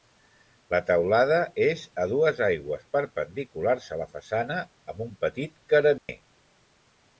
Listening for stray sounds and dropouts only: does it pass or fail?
fail